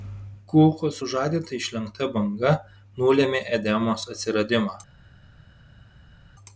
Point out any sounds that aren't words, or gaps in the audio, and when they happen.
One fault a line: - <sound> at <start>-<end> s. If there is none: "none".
none